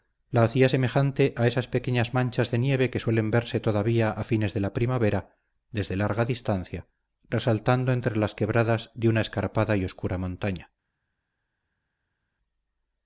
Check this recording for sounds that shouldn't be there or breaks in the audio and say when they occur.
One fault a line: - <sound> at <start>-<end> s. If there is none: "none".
none